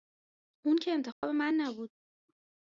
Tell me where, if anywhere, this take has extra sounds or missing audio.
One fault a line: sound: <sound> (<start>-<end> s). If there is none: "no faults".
sound: dropout (1.1-1.2 s)